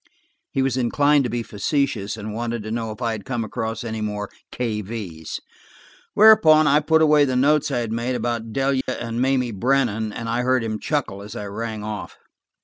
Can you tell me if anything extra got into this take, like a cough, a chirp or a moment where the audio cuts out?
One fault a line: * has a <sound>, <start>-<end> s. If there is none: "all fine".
* has a dropout, 8.8-8.9 s